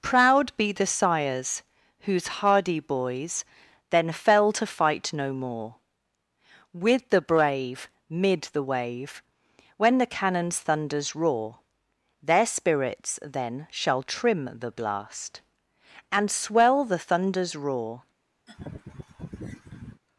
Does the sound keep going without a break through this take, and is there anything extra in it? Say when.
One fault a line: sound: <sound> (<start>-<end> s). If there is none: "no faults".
sound: laugh (18.5-20.0 s)